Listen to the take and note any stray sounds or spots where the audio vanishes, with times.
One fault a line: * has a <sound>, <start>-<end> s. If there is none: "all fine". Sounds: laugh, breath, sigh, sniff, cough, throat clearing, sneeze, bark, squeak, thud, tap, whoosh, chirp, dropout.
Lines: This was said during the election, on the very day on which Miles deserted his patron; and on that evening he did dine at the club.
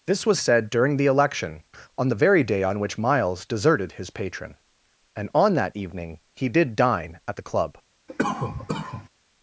* has a cough, 8.1-9.1 s